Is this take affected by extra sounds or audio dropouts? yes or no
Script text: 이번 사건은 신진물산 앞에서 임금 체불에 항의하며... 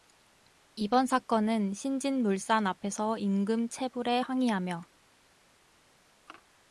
no